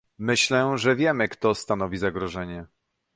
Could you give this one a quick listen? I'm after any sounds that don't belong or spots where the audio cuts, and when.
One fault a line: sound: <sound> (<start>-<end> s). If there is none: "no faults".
no faults